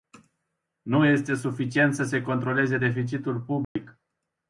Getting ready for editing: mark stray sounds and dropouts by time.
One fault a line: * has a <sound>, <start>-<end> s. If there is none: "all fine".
* has a dropout, 3.6-3.8 s